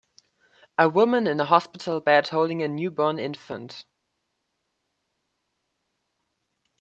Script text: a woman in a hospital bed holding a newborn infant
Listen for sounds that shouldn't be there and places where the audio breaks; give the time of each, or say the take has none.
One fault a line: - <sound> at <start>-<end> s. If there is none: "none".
none